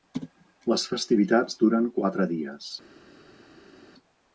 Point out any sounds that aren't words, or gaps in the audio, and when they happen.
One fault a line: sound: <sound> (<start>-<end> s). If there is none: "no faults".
no faults